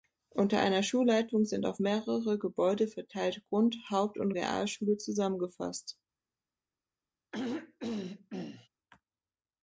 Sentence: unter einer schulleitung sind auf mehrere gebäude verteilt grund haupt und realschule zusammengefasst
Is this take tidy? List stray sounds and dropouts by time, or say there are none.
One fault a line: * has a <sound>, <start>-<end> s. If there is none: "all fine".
* has a throat clearing, 7.3-8.7 s